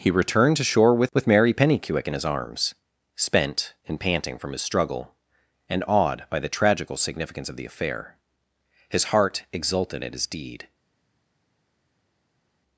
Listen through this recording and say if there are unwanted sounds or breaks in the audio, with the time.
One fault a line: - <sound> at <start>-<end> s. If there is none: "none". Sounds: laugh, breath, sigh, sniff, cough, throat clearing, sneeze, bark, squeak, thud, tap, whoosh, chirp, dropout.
none